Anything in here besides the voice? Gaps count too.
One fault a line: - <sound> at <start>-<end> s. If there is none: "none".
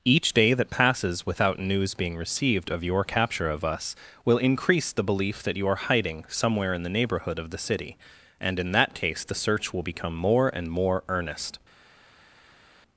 none